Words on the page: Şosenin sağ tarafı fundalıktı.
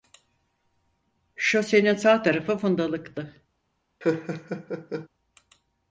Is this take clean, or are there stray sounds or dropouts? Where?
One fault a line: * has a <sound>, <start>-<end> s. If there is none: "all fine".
* has a laugh, 4.0-5.1 s